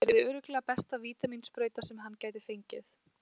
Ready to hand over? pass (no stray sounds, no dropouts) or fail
pass